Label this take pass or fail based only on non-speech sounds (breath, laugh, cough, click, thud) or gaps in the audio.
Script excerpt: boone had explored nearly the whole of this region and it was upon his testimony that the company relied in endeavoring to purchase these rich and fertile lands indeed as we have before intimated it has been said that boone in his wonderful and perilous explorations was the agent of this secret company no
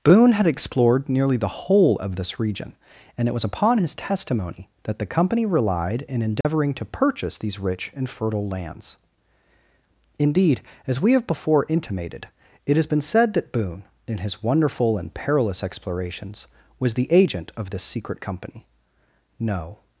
fail